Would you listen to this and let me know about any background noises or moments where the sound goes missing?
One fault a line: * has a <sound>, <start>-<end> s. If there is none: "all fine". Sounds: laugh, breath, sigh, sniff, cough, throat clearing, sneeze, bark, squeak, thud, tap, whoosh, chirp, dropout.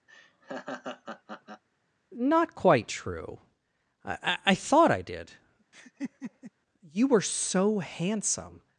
* has a laugh, 0.1-1.6 s
* has a laugh, 5.7-6.5 s